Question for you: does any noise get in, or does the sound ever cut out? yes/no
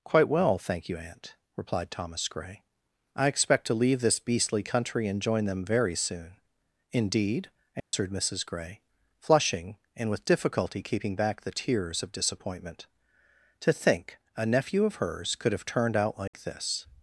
yes